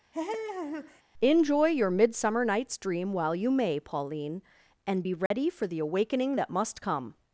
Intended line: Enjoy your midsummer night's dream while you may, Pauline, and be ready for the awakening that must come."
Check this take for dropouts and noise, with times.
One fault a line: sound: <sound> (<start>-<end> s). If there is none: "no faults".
sound: laugh (0.1-1.0 s)
sound: dropout (5.3-5.3 s)